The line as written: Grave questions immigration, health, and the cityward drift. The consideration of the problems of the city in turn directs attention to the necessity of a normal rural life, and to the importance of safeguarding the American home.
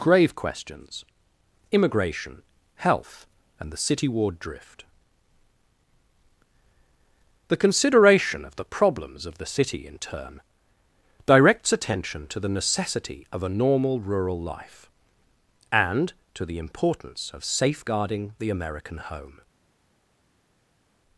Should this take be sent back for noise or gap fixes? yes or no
no